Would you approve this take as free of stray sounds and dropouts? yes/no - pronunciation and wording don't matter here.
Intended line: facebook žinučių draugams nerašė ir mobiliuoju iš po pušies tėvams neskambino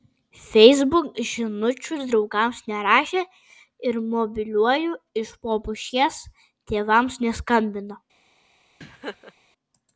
no